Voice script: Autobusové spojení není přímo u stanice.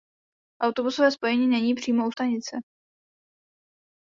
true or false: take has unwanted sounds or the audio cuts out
false